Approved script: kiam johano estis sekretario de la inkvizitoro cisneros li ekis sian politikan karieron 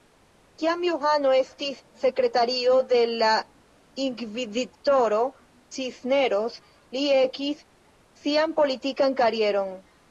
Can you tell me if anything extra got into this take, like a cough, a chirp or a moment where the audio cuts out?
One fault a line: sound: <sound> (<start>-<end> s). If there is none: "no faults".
no faults